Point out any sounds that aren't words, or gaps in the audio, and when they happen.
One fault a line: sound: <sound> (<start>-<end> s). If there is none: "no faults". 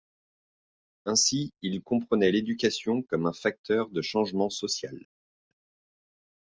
no faults